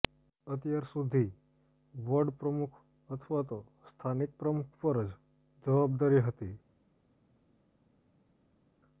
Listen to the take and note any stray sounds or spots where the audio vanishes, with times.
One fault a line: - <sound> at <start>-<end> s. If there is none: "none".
none